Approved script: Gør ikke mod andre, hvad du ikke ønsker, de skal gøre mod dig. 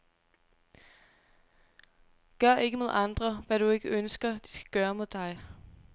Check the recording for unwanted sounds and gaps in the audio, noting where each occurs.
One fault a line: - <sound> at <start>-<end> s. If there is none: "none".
none